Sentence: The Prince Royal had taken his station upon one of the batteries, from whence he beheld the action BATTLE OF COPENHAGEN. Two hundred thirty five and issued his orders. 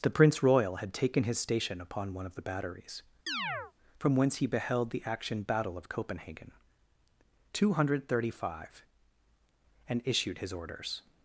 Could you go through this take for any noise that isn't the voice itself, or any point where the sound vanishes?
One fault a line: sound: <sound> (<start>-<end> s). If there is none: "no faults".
sound: chirp (3.3-3.7 s)